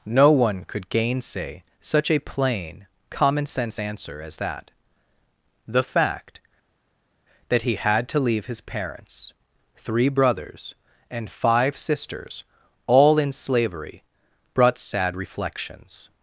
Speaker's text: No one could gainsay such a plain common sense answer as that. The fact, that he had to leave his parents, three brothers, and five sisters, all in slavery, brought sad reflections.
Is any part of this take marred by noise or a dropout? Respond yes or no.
no